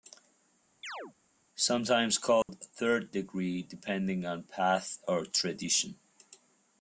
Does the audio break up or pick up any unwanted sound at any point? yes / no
yes